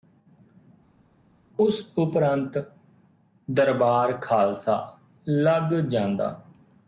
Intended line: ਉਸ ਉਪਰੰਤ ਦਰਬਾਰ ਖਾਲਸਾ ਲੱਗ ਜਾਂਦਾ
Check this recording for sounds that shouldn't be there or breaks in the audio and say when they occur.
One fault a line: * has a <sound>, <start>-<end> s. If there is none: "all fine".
all fine